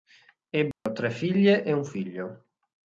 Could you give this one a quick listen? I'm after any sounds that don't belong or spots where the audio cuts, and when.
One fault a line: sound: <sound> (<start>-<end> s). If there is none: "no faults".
sound: dropout (0.7-0.9 s)